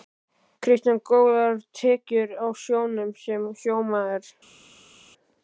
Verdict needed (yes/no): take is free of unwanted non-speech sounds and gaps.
yes